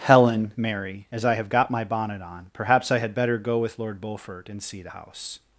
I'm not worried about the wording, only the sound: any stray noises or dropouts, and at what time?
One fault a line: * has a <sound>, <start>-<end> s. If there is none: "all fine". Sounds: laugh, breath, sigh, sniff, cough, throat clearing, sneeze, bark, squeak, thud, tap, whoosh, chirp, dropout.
all fine